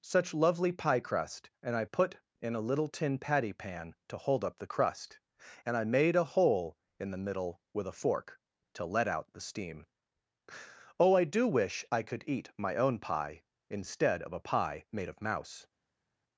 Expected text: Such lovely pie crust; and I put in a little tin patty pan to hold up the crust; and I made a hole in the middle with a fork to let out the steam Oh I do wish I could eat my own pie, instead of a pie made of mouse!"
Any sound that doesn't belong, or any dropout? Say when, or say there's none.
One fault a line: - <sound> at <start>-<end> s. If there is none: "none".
none